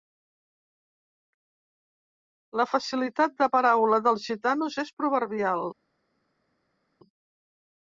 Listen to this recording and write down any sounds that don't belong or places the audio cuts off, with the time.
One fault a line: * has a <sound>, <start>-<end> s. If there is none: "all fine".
all fine